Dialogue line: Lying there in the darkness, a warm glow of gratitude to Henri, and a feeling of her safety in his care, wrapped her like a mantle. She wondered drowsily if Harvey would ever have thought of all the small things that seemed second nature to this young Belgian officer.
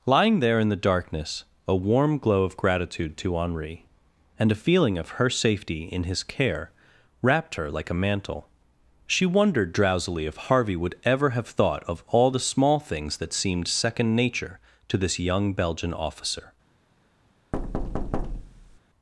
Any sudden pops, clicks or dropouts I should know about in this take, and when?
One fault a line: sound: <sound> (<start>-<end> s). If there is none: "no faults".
sound: thud (17.5-18.8 s)